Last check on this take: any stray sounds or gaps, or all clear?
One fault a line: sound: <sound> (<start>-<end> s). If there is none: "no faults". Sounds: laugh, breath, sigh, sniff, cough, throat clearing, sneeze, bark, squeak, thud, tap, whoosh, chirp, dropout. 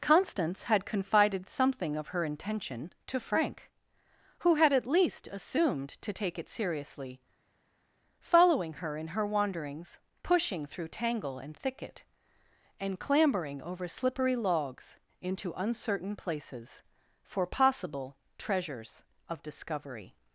no faults